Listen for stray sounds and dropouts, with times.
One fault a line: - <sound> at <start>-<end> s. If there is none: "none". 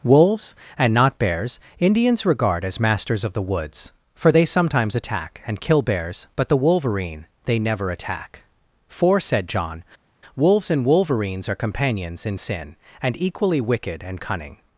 none